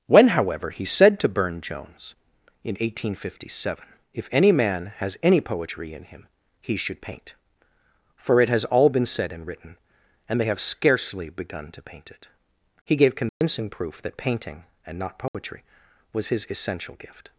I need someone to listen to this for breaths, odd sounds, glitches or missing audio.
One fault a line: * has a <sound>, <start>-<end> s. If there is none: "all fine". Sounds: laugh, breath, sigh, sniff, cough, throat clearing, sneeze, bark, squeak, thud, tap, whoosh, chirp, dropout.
* has a dropout, 13.3-13.4 s
* has a dropout, 15.3-15.3 s